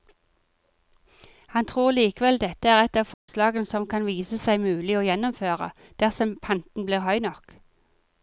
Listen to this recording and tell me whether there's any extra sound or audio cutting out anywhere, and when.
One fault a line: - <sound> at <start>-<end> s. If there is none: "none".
- dropout at 3.1-3.3 s